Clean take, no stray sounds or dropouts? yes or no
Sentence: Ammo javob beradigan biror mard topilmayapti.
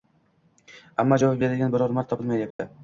no